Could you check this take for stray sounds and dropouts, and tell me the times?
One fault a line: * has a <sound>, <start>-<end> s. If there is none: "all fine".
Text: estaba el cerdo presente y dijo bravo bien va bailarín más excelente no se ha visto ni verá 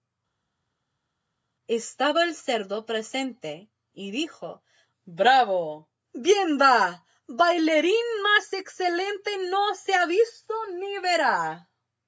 all fine